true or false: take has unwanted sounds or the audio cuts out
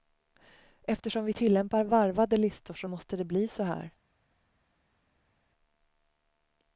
false